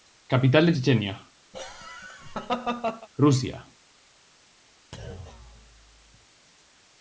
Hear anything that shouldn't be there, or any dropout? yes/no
yes